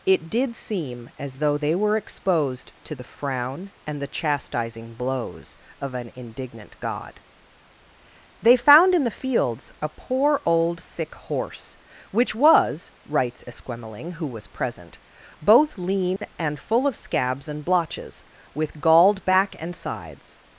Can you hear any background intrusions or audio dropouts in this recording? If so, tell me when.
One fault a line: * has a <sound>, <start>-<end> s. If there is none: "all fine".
* has a dropout, 16.2-16.2 s